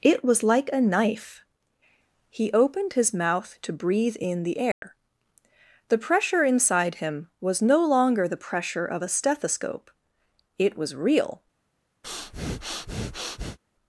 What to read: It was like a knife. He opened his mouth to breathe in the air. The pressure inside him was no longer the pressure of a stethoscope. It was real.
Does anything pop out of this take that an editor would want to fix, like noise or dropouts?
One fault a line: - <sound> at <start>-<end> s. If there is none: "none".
- dropout at 4.7-4.8 s
- breath at 12.0-13.6 s